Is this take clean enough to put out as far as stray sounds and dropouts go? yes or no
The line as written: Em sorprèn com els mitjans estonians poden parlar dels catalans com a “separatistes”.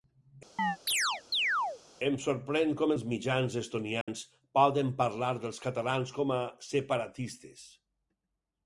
no